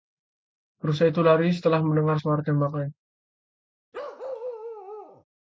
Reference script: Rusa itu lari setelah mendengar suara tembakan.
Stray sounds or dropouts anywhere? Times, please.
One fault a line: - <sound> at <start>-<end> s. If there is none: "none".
- bark at 3.9-5.2 s